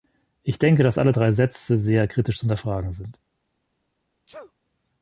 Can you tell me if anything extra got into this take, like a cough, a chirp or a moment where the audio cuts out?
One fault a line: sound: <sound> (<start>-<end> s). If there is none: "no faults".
sound: sneeze (4.3-4.5 s)